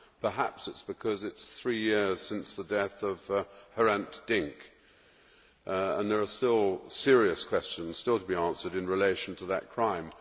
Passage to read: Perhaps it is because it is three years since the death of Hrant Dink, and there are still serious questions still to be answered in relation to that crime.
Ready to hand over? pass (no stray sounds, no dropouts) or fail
pass